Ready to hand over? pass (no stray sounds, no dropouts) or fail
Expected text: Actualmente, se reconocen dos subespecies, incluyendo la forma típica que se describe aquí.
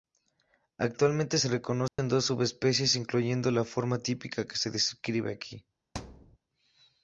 fail